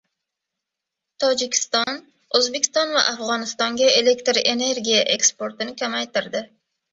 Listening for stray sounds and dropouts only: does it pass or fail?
fail